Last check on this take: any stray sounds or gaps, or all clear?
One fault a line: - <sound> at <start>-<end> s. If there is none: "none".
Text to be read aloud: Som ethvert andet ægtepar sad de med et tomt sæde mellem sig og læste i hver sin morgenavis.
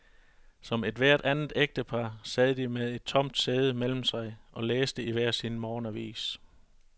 none